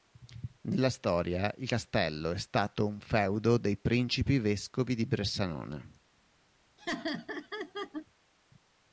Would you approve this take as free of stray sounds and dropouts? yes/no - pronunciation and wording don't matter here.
no